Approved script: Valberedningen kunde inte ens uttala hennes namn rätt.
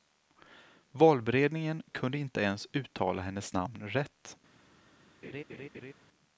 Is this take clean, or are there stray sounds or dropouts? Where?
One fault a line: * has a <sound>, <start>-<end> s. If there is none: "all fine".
* has a laugh, 5.2-5.9 s